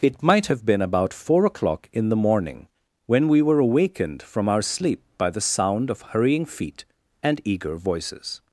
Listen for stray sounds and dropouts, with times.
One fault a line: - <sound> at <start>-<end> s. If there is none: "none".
none